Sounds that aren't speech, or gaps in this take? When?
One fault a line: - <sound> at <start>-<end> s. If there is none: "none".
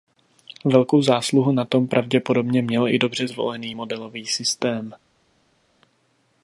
none